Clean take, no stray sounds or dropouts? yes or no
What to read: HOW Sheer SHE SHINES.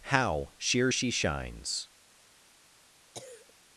no